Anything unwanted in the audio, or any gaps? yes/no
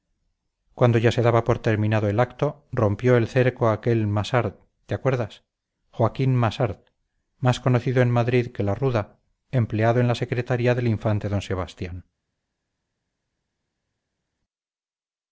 no